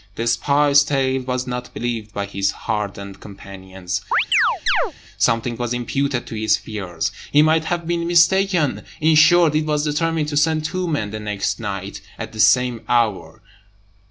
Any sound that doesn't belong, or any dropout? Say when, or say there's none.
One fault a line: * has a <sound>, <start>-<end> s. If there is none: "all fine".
* has a chirp, 4.1-4.9 s